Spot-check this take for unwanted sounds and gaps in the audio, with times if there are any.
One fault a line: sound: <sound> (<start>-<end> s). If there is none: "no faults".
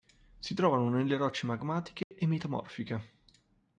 sound: dropout (2.0-2.1 s)